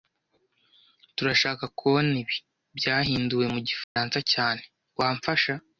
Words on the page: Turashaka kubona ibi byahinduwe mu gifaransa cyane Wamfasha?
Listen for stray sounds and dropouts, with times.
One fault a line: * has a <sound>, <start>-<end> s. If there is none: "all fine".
* has a dropout, 3.8-4.0 s